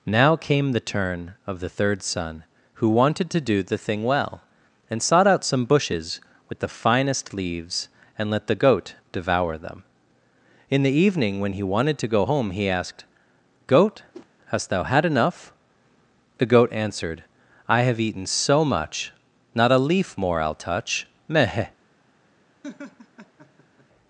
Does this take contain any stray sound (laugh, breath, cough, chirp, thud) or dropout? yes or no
yes